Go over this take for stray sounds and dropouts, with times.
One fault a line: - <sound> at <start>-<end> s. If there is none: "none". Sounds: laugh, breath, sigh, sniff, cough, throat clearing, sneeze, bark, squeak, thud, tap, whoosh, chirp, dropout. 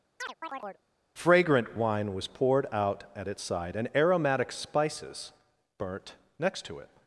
- chirp at 0.2-0.8 s